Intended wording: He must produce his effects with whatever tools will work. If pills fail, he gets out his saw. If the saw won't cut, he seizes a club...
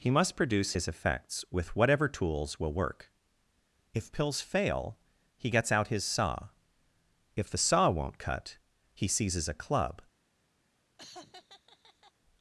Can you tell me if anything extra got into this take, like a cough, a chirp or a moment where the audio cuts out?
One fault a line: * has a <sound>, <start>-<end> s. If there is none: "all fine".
* has a laugh, 11.0-12.1 s